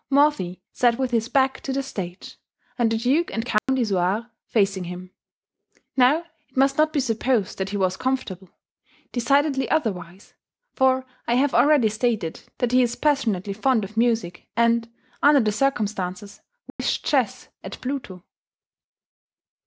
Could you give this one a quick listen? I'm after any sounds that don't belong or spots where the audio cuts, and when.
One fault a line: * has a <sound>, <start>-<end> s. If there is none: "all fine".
* has a dropout, 3.6-3.7 s
* has a dropout, 16.7-16.8 s